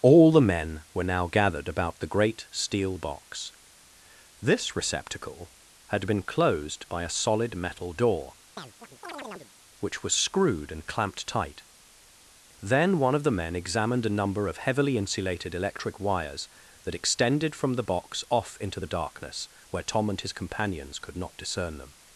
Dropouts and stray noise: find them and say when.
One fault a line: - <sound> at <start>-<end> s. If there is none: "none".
- chirp at 8.6-9.5 s